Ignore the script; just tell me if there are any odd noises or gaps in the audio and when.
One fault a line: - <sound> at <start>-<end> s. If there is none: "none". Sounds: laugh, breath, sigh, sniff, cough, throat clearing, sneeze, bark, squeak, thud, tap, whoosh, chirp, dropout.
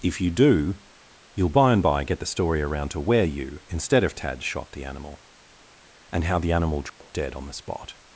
- dropout at 6.9-7.0 s